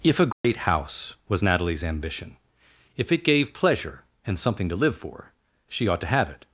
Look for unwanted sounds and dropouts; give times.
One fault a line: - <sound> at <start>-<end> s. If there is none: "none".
- dropout at 0.3-0.4 s